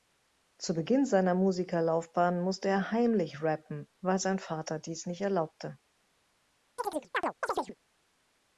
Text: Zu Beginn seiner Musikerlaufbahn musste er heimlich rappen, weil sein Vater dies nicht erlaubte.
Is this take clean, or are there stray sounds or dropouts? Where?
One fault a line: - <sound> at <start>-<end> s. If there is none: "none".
- chirp at 6.8-7.8 s